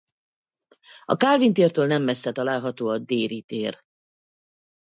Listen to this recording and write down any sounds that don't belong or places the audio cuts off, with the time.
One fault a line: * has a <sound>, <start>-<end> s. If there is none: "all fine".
all fine